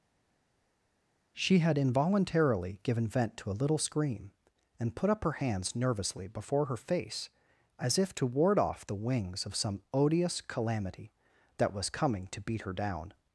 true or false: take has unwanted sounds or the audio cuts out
false